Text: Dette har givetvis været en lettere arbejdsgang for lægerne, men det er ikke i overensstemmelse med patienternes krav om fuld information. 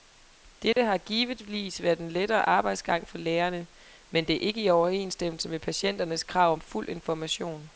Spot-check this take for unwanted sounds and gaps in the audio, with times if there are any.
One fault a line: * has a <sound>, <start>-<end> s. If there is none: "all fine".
* has a dropout, 0.7-0.8 s